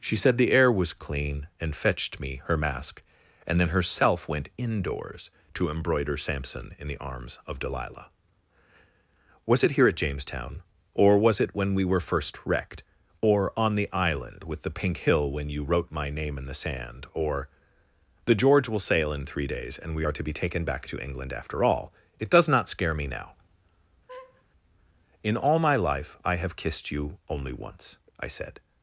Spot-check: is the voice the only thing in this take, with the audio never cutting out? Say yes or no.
no